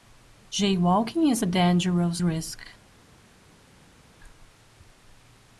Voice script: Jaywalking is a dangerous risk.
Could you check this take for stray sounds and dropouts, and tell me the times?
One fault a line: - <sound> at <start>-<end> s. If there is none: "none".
none